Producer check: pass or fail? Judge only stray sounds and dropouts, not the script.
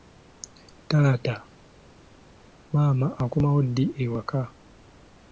pass